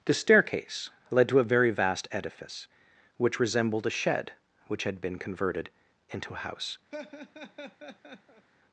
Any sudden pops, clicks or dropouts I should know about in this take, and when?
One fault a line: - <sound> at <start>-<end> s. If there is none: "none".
- laugh at 6.9-8.5 s